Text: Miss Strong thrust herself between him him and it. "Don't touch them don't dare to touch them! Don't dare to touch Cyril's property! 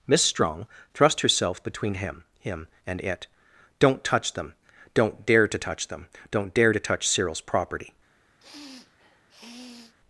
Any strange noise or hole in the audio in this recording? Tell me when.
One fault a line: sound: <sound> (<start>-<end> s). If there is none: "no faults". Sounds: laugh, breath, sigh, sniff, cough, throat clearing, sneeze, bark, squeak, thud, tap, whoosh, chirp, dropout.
sound: sniff (8.4-9.9 s)